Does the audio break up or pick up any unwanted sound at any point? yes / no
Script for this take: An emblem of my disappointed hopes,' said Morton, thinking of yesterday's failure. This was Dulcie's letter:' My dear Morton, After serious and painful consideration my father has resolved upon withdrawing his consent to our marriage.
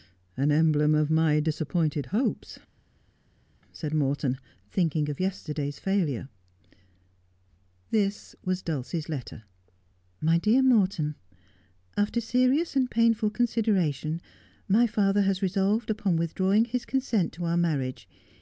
no